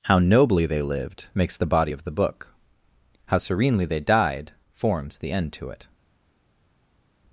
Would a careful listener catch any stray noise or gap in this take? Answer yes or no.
no